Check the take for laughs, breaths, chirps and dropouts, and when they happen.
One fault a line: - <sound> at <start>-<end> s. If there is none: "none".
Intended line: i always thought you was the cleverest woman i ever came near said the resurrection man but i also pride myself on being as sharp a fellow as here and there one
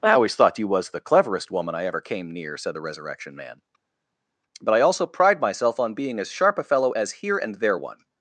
none